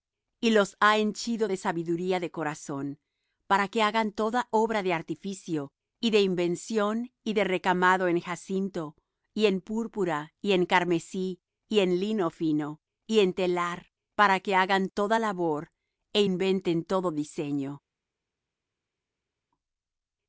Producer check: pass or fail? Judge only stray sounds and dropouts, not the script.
pass